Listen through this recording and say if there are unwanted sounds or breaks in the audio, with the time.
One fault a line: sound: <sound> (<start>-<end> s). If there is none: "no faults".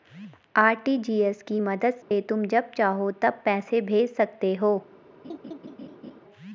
sound: dropout (2.0-2.1 s)
sound: laugh (5.2-6.2 s)